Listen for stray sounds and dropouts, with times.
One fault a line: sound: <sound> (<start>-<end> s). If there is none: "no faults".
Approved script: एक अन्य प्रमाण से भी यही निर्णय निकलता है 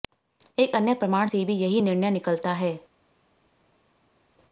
no faults